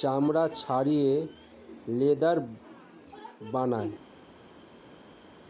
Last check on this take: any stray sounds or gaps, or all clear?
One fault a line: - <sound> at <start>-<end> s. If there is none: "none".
none